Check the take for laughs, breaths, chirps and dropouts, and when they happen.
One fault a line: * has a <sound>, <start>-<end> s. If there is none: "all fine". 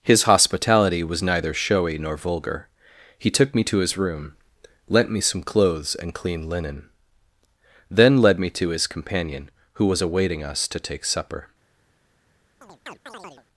* has a chirp, 12.6-13.5 s